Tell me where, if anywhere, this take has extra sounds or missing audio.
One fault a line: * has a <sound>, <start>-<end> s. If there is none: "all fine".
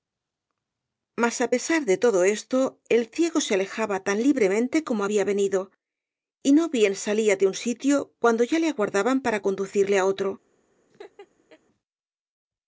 * has a laugh, 10.9-11.6 s